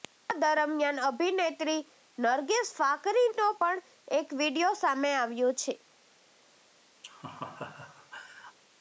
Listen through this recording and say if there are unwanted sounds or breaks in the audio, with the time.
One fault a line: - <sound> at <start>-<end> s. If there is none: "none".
- laugh at 7.0-8.6 s